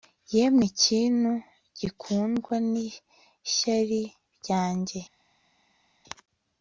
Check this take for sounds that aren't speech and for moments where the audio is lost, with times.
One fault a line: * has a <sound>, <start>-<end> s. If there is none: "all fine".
all fine